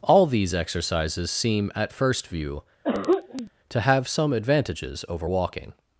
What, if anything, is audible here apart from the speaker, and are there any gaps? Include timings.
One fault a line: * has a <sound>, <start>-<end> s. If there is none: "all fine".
* has a throat clearing, 2.8-3.5 s